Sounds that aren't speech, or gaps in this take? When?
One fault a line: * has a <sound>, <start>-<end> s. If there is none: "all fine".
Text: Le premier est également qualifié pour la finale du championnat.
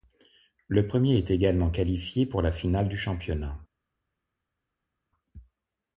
all fine